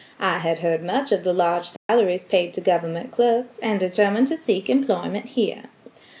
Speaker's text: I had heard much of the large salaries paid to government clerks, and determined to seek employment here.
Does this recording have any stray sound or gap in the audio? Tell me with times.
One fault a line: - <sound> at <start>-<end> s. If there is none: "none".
- dropout at 1.8-1.9 s